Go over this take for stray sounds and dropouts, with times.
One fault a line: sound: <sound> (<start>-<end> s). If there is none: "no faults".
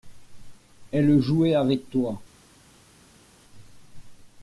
no faults